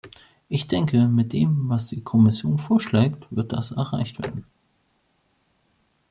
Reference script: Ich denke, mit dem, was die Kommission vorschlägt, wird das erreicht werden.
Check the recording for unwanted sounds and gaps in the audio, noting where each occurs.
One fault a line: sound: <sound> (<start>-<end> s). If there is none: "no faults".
no faults